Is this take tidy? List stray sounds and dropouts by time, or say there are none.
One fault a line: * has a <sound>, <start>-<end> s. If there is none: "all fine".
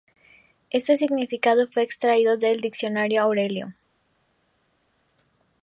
all fine